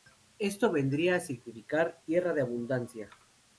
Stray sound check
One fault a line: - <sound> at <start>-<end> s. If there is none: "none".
none